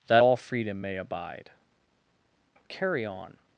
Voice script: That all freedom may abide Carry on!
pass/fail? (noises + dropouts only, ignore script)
pass